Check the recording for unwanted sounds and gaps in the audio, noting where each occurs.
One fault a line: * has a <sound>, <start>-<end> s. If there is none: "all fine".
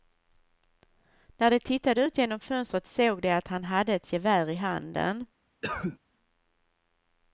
* has a cough, 5.6-6.0 s